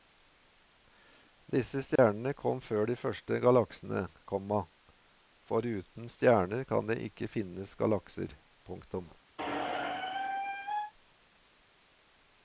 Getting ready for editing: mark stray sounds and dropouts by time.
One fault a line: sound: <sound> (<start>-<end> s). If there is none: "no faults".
sound: dropout (2.0-2.0 s)
sound: squeak (9.4-10.9 s)